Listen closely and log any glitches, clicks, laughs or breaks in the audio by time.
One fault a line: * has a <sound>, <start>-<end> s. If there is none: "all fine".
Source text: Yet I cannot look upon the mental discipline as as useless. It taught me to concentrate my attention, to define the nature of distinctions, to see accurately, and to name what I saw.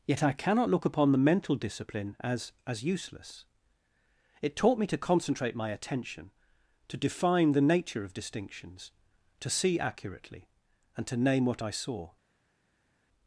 all fine